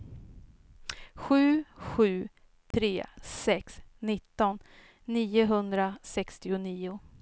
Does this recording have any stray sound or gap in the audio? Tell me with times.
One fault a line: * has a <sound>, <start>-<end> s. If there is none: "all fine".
* has a dropout, 2.7-2.7 s